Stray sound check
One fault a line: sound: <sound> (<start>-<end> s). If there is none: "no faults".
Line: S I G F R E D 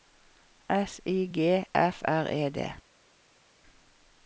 no faults